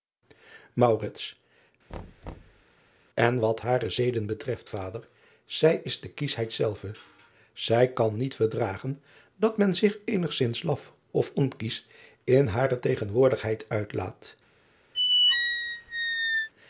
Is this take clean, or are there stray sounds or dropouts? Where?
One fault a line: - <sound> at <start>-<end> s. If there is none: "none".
- thud at 1.9-2.6 s
- squeak at 14.9-16.5 s